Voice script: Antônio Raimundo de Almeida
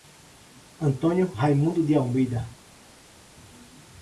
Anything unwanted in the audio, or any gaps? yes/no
no